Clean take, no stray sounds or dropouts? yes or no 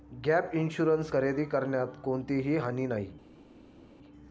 yes